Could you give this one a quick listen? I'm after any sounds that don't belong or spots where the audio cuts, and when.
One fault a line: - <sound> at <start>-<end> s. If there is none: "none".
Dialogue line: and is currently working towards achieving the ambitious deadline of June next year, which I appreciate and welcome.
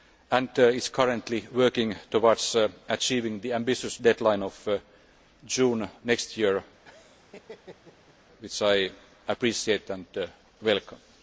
- laugh at 6.8-8.2 s